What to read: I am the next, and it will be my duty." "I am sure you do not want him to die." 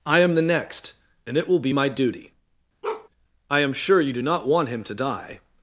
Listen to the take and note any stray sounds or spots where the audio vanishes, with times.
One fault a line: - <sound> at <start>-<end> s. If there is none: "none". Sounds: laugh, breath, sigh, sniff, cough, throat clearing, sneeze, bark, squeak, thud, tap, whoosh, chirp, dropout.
- bark at 2.8-3.1 s